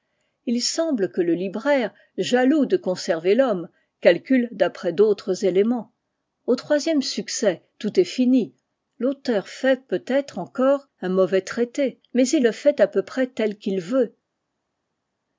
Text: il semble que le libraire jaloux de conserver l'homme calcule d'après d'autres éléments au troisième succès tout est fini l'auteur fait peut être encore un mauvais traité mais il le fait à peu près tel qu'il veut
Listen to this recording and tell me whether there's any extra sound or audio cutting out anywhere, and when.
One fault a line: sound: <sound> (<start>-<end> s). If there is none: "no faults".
no faults